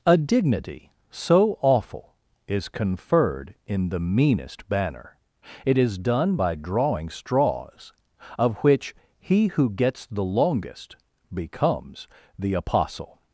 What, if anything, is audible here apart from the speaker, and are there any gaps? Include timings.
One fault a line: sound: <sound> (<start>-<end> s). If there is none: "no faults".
no faults